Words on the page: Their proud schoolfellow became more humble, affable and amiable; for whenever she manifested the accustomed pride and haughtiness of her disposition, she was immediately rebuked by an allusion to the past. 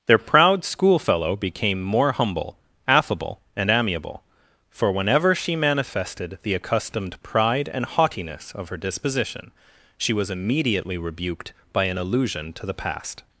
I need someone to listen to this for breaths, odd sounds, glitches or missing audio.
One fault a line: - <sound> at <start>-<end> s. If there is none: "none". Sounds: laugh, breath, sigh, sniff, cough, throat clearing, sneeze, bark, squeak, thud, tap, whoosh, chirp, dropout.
none